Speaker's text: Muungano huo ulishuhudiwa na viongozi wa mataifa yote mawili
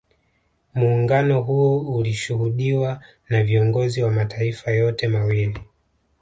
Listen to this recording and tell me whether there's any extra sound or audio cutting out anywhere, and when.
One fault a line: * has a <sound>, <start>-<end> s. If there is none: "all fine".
all fine